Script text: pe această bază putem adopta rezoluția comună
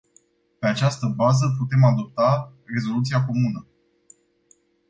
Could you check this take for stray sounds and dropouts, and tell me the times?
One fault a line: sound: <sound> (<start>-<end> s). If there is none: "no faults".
no faults